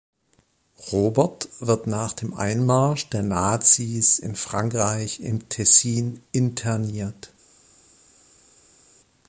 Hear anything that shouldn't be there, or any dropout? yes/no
no